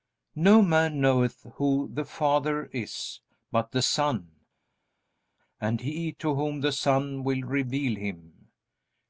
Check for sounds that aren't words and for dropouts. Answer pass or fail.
pass